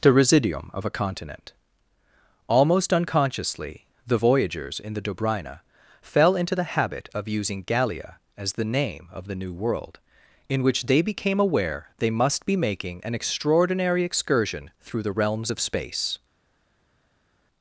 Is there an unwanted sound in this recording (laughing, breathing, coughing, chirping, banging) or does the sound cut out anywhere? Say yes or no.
no